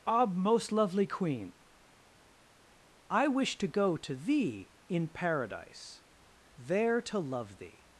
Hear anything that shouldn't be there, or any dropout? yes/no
no